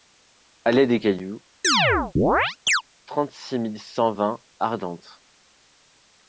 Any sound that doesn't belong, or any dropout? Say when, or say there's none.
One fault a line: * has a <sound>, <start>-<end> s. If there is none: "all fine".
* has a chirp, 1.6-2.8 s